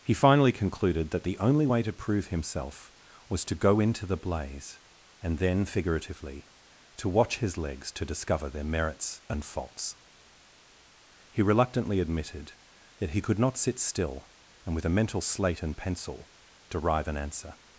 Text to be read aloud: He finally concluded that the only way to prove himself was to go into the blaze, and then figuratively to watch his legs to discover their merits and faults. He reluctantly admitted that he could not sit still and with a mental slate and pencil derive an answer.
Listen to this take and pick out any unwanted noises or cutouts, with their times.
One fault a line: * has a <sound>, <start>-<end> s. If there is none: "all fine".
all fine